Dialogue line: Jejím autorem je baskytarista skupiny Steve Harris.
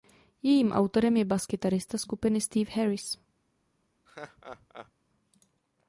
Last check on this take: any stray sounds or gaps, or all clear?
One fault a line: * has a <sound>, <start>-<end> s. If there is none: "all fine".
* has a laugh, 4.1-4.9 s